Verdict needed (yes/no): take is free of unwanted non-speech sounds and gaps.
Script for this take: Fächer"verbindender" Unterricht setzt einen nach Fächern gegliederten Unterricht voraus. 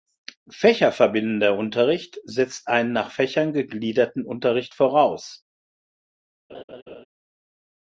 no